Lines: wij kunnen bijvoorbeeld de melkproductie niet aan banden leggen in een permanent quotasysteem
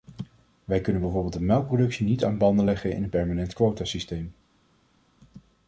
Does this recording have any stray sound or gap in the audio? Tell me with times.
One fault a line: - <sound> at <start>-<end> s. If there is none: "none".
none